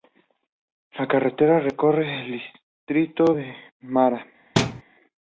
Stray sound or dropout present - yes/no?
yes